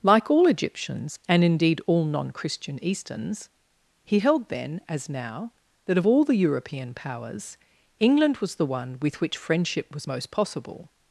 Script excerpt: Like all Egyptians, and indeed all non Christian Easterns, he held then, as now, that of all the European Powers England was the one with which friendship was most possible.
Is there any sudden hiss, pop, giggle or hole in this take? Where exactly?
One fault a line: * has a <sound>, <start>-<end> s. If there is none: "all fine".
all fine